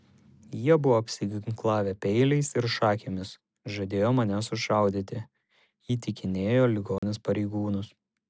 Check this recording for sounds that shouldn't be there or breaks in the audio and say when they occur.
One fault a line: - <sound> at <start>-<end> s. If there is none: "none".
- dropout at 7.0-7.0 s